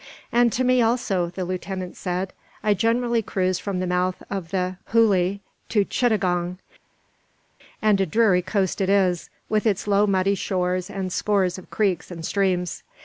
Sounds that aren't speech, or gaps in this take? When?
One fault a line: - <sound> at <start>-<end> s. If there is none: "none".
none